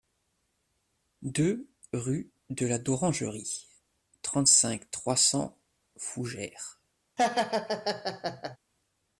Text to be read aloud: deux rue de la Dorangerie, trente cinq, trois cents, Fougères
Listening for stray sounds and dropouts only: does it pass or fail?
fail